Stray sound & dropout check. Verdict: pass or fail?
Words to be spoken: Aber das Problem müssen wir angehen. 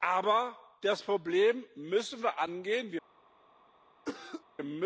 fail